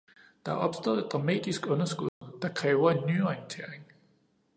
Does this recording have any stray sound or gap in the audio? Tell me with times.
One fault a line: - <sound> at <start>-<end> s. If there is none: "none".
- dropout at 2.1-2.2 s